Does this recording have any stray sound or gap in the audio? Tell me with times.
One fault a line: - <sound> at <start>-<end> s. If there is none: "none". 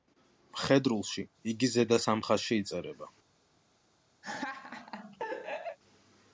- laugh at 4.2-5.8 s